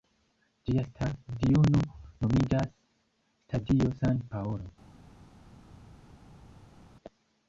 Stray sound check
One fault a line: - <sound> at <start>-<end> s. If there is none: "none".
none